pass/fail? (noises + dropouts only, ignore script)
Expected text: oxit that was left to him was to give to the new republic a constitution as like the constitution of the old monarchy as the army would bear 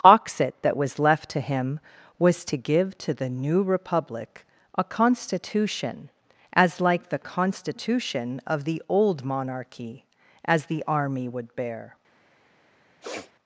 fail